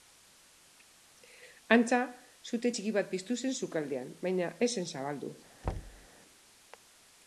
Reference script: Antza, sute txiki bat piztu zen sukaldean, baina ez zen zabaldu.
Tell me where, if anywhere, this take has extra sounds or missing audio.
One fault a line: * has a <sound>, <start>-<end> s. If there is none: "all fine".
* has a thud, 5.6-6.1 s